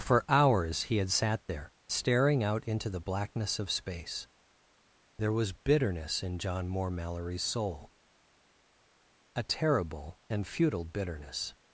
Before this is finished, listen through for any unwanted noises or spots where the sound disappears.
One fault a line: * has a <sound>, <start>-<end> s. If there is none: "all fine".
all fine